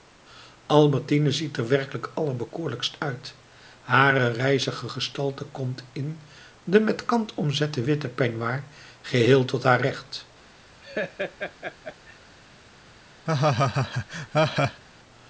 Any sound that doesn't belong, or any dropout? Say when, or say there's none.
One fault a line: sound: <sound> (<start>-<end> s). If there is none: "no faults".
sound: laugh (10.8-12.2 s)
sound: laugh (13.3-14.8 s)